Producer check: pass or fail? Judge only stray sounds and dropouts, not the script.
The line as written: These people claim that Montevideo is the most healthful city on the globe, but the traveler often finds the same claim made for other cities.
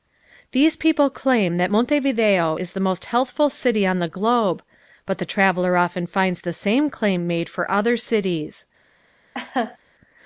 fail